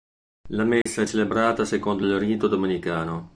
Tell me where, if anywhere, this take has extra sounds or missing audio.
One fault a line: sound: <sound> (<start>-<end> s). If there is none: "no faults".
sound: dropout (0.8-0.9 s)